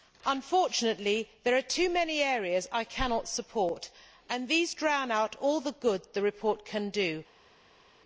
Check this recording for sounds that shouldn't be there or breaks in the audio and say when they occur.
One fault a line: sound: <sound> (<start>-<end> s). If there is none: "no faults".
no faults